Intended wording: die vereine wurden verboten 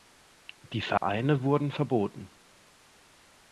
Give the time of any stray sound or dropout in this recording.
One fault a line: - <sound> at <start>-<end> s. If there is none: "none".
- dropout at 1.0-1.0 s